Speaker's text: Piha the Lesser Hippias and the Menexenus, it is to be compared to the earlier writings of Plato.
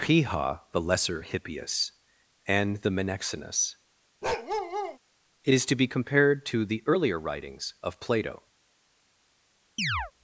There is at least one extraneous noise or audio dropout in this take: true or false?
true